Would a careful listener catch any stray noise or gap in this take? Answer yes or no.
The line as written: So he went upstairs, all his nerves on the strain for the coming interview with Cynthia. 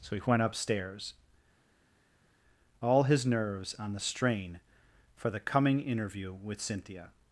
no